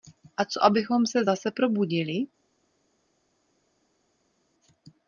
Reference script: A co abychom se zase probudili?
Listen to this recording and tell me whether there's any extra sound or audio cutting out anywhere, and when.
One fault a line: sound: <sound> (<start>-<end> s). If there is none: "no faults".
no faults